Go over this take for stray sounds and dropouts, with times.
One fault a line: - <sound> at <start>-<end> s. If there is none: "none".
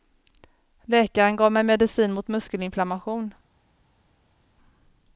none